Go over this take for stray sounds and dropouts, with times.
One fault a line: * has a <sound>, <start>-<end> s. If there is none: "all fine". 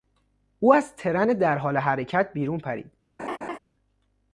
* has a laugh, 3.2-3.6 s